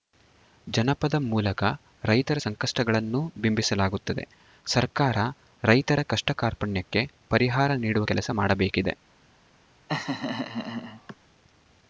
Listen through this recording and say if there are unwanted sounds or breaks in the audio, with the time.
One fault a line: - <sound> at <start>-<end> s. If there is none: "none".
- laugh at 9.9-11.2 s